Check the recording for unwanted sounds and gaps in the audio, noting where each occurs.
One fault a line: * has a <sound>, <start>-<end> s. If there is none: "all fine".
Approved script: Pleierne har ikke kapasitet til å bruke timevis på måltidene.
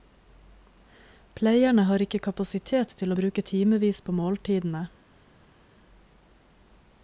all fine